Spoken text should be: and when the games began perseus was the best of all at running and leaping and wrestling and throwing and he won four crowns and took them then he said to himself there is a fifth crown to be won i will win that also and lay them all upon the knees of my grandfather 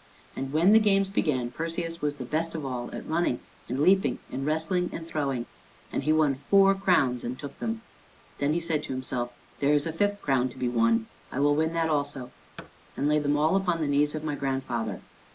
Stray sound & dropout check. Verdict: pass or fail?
fail